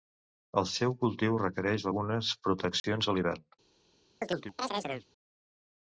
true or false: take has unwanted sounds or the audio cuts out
true